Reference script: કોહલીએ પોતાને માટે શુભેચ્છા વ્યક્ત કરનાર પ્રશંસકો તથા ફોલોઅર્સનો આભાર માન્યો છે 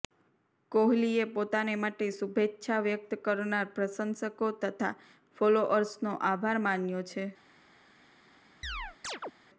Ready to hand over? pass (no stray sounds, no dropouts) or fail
fail